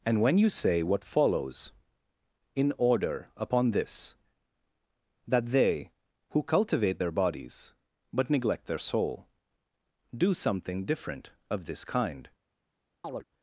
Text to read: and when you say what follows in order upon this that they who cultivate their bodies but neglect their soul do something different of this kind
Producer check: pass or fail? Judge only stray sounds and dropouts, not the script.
fail